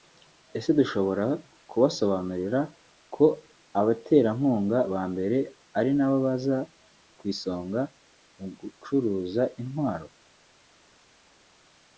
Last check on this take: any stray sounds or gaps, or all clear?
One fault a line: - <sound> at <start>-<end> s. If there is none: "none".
none